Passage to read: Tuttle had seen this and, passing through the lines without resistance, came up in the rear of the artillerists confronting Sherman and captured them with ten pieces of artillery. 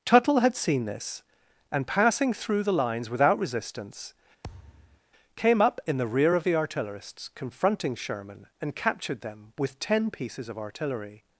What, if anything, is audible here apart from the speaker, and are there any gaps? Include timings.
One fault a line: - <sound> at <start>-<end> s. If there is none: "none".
- thud at 4.4-5.0 s